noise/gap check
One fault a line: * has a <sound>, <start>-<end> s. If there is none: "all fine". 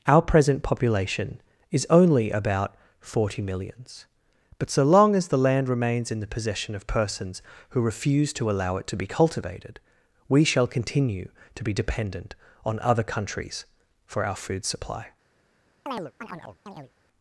* has a chirp, 15.9-16.9 s